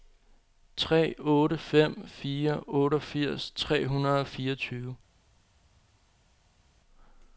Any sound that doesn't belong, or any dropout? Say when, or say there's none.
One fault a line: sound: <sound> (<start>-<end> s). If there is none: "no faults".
no faults